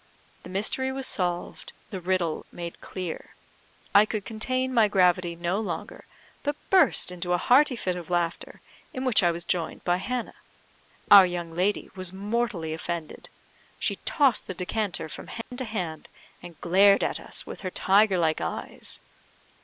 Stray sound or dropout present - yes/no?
yes